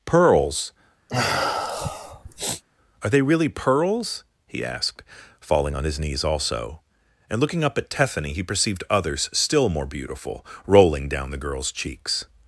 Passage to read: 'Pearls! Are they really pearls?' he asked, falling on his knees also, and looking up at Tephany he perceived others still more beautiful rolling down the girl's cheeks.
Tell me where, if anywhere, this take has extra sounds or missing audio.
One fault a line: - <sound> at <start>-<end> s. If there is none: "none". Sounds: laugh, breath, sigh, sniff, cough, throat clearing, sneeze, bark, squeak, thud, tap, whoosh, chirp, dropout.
- sniff at 1.1-2.6 s